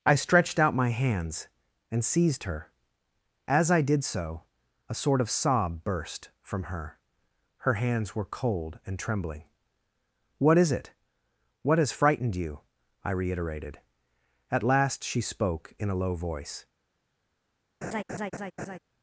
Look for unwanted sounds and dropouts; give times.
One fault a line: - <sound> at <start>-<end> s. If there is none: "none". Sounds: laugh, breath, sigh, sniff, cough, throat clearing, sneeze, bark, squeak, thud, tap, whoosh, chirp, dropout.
- laugh at 17.8-18.8 s